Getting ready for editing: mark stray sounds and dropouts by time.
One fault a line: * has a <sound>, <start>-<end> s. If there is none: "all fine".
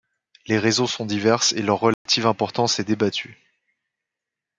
* has a dropout, 1.9-2.1 s